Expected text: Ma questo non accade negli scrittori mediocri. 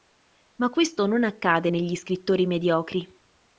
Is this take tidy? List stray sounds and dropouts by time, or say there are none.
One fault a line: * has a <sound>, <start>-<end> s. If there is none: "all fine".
all fine